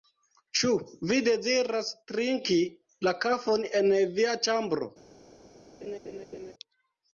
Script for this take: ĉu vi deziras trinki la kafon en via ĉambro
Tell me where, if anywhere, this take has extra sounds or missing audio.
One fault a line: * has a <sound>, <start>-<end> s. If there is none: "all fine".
* has a laugh, 5.8-6.5 s